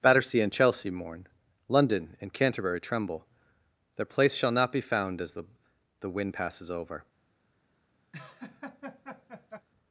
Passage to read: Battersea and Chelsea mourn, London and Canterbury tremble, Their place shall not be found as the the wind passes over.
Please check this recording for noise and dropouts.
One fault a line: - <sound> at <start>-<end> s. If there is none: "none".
- laugh at 8.1-9.7 s